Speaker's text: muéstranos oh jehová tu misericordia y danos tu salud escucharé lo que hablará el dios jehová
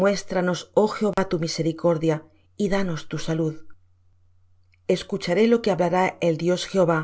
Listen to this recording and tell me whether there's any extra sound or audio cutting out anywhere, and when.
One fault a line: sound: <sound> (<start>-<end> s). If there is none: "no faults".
sound: dropout (1.1-1.2 s)